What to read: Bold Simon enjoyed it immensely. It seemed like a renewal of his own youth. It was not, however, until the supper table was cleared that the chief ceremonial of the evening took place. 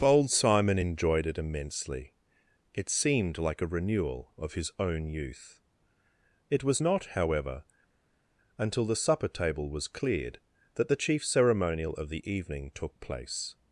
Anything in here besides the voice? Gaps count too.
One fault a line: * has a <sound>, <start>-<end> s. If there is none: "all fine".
all fine